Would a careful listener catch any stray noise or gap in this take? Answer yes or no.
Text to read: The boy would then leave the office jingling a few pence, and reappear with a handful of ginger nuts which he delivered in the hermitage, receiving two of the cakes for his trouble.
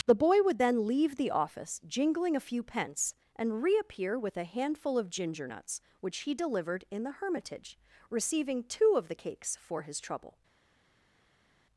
no